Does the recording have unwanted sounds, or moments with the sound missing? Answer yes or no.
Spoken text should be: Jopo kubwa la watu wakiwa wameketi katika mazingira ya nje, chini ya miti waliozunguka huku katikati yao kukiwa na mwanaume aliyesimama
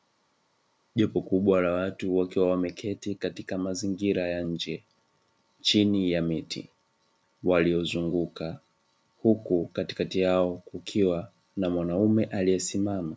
no